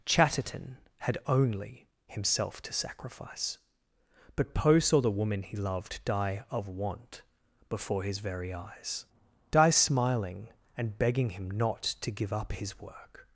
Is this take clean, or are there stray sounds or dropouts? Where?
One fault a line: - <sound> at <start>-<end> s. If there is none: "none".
none